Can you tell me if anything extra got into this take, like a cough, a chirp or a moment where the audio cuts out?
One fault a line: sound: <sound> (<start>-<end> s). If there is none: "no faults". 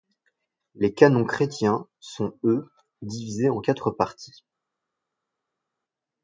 no faults